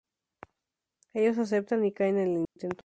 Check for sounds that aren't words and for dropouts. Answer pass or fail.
fail